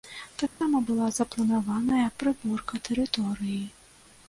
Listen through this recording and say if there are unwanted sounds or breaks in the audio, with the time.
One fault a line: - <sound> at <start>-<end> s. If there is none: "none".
- dropout at 0.5-0.6 s